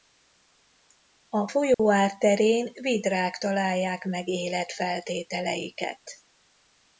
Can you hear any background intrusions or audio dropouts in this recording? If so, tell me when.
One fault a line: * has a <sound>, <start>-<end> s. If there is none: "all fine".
* has a dropout, 1.7-1.8 s